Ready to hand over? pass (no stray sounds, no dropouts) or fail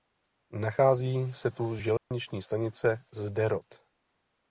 fail